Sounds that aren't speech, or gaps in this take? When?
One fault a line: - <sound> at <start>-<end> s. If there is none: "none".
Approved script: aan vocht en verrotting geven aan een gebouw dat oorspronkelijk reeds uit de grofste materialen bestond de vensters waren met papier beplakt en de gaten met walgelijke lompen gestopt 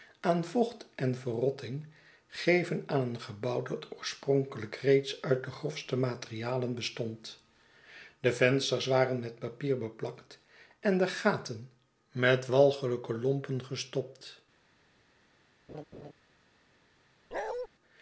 - laugh at 15.7-16.1 s
- bark at 17.3-17.7 s